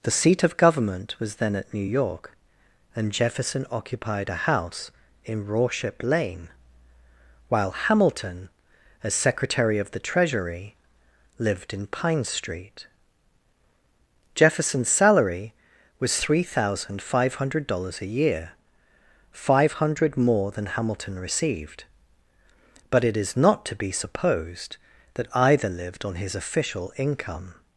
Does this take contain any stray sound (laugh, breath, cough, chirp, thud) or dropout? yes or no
no